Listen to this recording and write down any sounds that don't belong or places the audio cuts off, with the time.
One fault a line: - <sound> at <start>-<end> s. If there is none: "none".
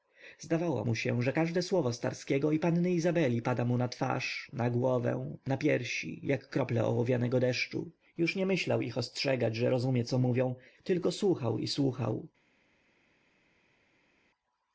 none